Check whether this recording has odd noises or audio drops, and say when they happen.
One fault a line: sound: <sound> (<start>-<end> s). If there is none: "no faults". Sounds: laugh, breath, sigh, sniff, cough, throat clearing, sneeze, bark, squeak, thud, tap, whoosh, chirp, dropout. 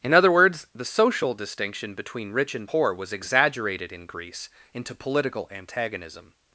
no faults